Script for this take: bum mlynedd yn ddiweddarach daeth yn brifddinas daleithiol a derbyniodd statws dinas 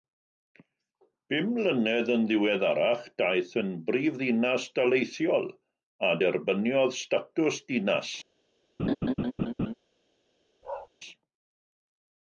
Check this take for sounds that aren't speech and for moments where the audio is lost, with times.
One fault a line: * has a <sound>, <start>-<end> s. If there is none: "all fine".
* has a laugh, 8.8-9.7 s
* has a bark, 10.6-10.9 s